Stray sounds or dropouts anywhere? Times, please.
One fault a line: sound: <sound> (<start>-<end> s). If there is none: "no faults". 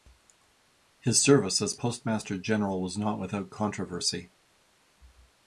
no faults